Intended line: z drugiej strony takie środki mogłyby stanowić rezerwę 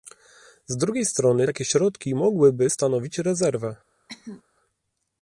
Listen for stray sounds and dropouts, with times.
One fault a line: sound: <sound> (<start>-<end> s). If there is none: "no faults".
sound: cough (4.1-4.4 s)